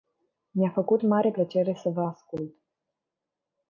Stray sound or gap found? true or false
false